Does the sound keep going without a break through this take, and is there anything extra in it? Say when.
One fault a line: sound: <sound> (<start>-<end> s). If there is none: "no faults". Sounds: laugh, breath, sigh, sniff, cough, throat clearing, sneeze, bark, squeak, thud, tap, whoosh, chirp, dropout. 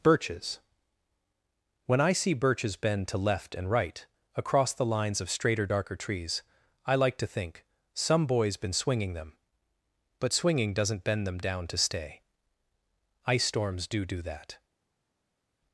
no faults